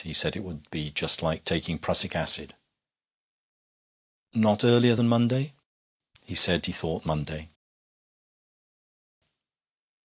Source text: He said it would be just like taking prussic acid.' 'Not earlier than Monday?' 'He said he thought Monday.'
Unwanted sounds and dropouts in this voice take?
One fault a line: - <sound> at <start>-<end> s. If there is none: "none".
none